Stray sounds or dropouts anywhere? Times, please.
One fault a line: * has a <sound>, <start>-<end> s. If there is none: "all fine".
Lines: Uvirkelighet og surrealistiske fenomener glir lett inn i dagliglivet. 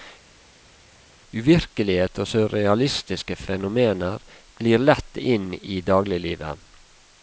all fine